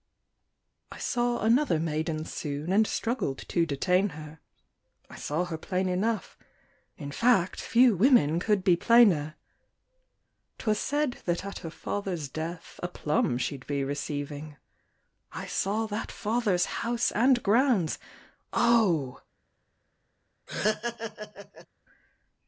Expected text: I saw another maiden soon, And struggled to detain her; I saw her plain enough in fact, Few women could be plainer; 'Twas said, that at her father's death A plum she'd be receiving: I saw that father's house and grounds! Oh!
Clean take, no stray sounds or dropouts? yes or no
no